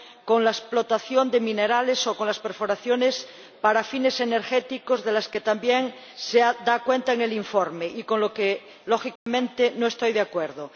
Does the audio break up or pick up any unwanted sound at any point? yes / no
yes